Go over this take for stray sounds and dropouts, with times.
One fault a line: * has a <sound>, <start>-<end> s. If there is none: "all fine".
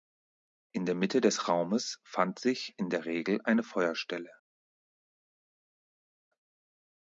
all fine